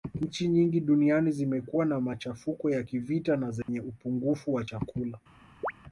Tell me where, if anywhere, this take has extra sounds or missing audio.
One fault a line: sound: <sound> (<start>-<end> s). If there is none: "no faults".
sound: dropout (3.6-3.7 s)
sound: chirp (5.6-5.7 s)